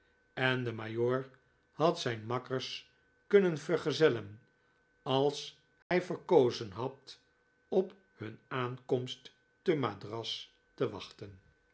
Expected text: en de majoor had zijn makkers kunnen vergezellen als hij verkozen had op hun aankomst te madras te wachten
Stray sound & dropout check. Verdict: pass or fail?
fail